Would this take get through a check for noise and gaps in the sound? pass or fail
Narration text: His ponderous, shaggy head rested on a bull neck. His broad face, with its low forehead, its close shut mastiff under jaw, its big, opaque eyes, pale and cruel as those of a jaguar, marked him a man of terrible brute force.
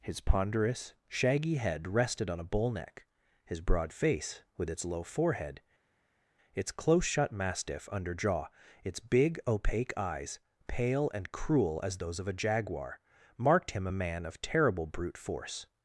pass